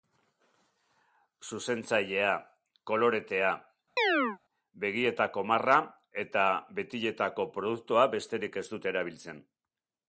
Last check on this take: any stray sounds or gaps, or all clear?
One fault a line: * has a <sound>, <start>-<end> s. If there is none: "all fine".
* has a chirp, 4.0-4.4 s